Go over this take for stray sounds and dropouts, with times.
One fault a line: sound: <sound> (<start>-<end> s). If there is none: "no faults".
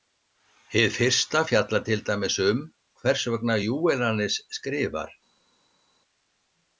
no faults